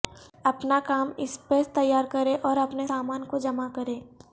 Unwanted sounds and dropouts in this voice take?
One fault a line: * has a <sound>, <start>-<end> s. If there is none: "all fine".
all fine